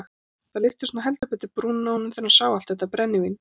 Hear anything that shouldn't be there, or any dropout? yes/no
yes